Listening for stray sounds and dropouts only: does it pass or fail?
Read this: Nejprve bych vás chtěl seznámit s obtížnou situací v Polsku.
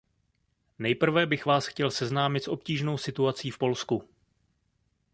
pass